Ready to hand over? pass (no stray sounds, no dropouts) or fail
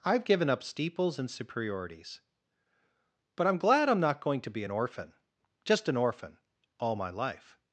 pass